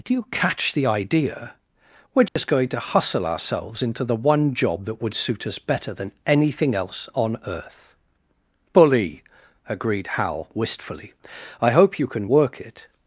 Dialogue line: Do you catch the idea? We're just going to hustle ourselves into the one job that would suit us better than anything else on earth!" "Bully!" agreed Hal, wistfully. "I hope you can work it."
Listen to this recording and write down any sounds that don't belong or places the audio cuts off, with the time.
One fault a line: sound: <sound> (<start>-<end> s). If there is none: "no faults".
sound: dropout (2.3-2.4 s)